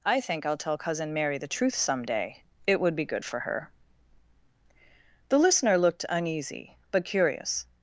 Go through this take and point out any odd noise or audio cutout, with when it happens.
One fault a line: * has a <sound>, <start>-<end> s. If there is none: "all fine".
all fine